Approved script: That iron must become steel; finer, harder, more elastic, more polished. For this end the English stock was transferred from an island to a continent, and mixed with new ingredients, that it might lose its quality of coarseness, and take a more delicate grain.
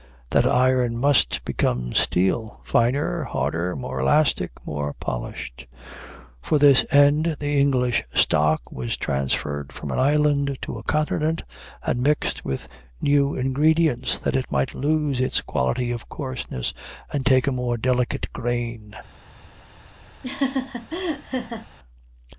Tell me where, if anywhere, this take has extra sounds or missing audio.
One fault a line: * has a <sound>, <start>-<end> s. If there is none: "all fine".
* has a laugh, 20.2-21.7 s